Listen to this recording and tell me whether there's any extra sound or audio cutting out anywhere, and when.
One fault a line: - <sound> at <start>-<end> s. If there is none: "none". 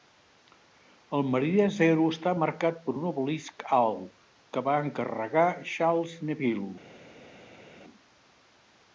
none